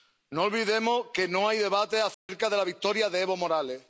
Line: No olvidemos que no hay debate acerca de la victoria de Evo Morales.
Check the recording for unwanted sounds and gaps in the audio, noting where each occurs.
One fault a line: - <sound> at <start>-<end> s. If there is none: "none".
- dropout at 2.1-2.3 s